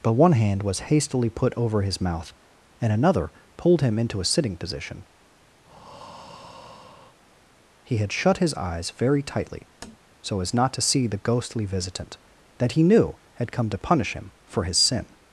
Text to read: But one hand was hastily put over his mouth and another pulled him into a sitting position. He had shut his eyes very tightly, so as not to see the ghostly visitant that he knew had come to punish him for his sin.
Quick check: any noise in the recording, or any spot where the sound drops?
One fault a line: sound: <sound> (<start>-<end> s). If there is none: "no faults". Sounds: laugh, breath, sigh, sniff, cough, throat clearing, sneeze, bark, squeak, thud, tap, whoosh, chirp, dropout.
sound: breath (5.6-7.2 s)
sound: tap (9.8-10.0 s)